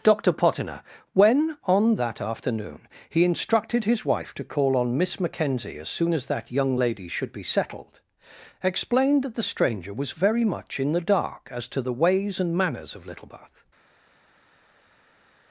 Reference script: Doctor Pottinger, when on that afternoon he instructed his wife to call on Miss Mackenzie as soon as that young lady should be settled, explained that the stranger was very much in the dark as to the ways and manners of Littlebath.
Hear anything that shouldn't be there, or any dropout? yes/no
no